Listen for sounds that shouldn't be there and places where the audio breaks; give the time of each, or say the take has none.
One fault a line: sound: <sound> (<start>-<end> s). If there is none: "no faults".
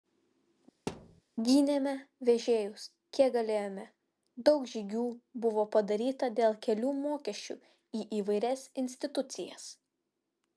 sound: thud (0.9-1.2 s)